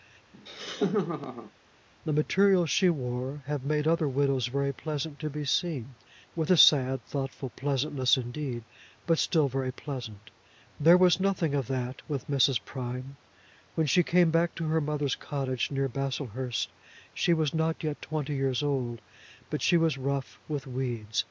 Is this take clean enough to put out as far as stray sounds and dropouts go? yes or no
no